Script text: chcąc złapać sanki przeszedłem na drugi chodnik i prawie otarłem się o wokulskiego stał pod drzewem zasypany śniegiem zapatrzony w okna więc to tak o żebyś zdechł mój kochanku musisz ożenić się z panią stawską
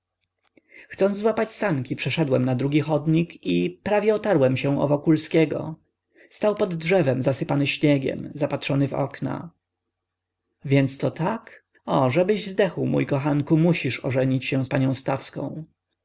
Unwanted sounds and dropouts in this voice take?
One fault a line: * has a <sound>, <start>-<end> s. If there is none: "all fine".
all fine